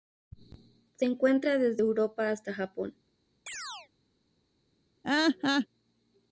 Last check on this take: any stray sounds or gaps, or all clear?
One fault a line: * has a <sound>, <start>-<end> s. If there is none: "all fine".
* has a chirp, 3.5-3.9 s
* has a laugh, 5.0-5.7 s